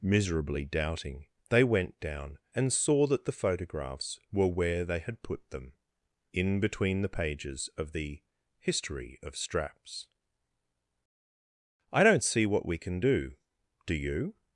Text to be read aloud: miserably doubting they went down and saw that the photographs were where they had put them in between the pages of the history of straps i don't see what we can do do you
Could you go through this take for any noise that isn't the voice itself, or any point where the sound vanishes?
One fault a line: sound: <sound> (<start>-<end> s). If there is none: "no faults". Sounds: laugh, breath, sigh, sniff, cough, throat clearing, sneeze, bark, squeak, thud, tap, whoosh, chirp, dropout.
no faults